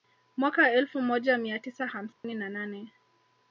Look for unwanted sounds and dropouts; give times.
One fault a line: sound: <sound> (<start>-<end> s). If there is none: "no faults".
sound: dropout (2.1-2.2 s)